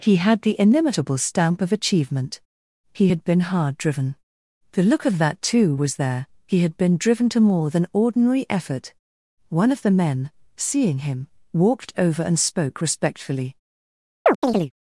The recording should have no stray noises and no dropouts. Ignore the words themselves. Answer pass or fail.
fail